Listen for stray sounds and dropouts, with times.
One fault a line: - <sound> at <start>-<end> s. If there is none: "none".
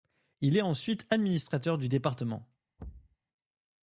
- thud at 2.8-3.2 s